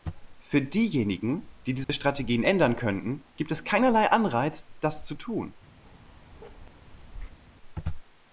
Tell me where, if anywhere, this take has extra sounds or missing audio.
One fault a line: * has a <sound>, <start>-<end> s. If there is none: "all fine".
* has a dropout, 1.8-1.9 s
* has a bark, 5.8-7.4 s